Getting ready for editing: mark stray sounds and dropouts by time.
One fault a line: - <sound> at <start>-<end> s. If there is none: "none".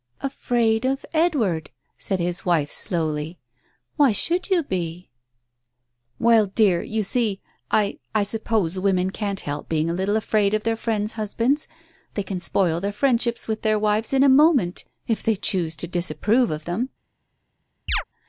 - chirp at 17.9-18.0 s